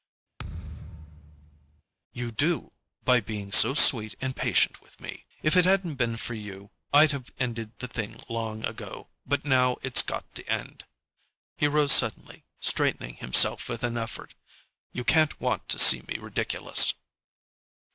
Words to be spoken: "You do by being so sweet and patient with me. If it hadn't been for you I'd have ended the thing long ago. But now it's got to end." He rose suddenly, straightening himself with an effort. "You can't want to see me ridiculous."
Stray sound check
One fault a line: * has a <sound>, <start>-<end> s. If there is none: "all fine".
* has a thud, 0.4-1.8 s